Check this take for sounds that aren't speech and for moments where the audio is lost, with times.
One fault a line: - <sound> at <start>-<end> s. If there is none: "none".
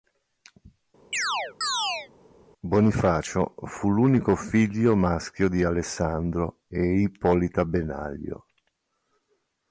- chirp at 1.1-2.1 s